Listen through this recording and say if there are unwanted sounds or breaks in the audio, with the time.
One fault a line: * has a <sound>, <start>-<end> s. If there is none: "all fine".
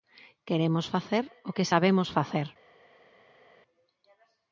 all fine